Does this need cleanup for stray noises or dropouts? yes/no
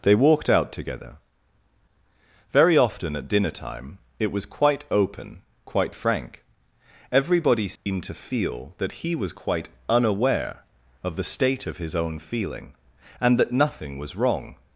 yes